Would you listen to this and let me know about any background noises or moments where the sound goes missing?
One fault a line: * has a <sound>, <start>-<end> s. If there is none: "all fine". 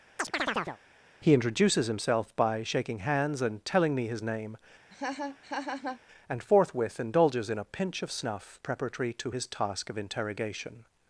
* has a chirp, 0.2-0.8 s
* has a laugh, 4.9-6.0 s